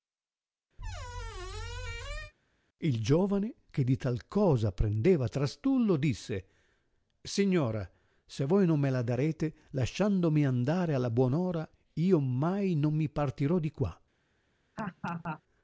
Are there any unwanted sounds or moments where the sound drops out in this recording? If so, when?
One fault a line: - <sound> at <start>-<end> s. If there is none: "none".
- squeak at 0.8-2.3 s
- laugh at 14.8-15.4 s